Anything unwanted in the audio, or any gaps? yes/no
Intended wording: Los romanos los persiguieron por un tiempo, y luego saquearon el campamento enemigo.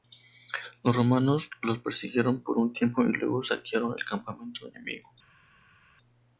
no